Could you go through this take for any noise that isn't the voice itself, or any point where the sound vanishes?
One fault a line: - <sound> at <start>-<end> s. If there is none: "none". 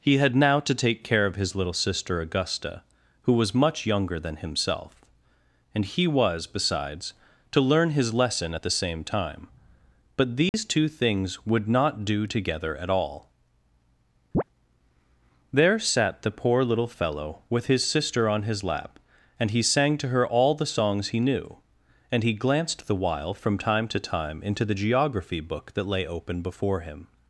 - dropout at 10.5-10.5 s
- chirp at 14.3-14.4 s